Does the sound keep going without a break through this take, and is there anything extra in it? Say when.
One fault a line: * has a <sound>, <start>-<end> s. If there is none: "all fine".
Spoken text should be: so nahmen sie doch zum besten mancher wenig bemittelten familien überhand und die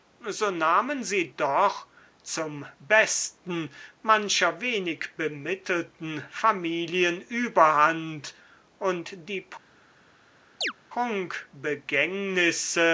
* has a chirp, 10.6-10.7 s